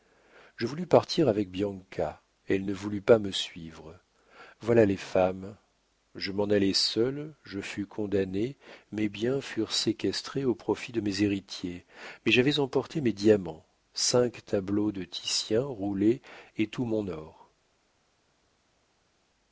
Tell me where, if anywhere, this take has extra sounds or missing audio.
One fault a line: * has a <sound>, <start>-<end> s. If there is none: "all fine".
all fine